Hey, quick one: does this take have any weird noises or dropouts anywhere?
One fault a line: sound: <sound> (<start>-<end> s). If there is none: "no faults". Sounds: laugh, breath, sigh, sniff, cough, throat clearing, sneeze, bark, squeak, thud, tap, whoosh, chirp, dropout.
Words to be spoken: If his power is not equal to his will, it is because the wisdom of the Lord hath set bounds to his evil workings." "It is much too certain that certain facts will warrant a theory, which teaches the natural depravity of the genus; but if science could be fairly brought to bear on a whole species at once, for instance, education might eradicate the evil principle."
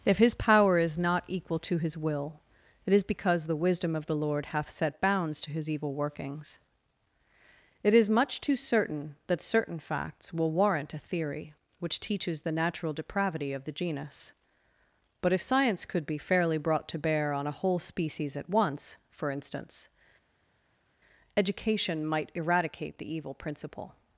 no faults